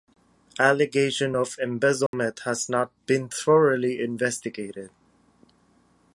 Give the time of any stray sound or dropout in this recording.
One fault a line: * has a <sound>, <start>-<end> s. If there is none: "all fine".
* has a dropout, 2.1-2.1 s